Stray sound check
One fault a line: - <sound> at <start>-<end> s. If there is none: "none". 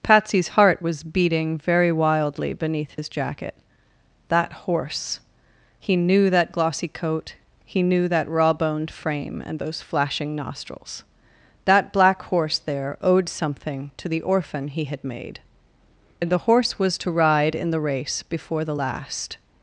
- dropout at 3.0-3.0 s